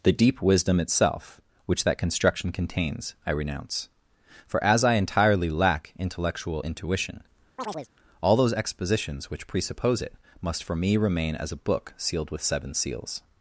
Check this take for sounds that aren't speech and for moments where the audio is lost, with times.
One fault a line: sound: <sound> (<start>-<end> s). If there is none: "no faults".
sound: chirp (7.6-7.9 s)